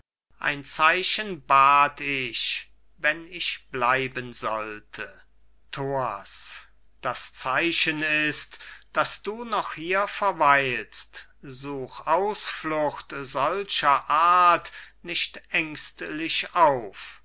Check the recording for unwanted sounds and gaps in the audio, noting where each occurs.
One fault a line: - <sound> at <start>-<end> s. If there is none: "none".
none